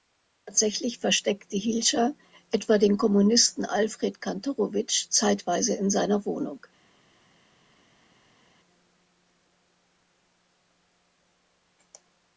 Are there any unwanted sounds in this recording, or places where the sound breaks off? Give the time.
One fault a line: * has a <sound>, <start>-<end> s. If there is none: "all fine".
all fine